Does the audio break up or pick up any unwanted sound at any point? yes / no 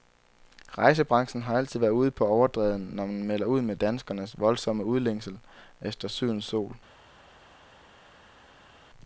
no